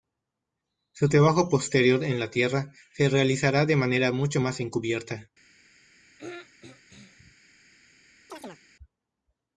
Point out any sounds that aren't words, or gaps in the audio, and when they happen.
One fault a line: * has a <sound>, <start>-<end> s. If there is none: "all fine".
* has a throat clearing, 6.2-7.3 s
* has a chirp, 8.3-8.6 s